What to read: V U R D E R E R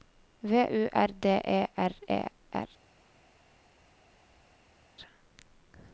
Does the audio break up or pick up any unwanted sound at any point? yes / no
no